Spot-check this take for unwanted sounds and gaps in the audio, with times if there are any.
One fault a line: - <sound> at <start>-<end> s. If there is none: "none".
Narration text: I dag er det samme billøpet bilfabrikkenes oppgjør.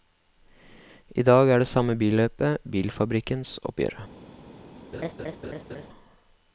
- laugh at 4.9-5.9 s